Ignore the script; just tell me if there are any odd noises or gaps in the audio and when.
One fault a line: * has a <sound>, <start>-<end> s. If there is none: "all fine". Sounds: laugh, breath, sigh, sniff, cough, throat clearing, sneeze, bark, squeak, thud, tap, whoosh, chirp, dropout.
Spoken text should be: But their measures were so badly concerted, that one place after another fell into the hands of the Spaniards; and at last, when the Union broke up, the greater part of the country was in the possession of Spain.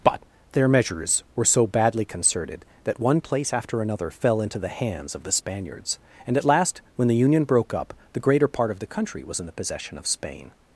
all fine